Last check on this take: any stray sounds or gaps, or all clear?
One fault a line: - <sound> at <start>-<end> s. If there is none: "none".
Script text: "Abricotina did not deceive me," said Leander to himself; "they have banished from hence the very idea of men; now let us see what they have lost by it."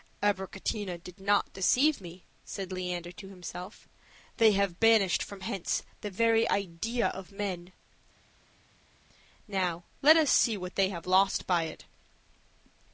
none